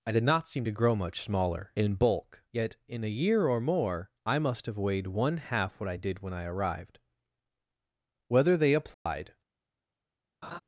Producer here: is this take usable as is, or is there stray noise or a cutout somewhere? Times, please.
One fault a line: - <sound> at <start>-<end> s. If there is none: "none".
- dropout at 8.9-9.1 s
- laugh at 10.4-10.6 s